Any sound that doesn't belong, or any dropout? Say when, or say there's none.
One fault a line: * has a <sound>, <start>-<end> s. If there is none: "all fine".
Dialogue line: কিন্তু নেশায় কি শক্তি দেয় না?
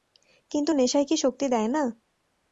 all fine